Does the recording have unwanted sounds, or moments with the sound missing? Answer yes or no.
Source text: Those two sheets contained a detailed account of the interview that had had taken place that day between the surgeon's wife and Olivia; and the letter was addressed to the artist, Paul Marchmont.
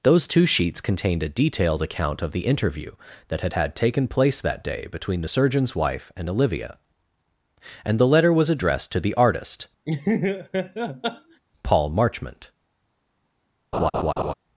yes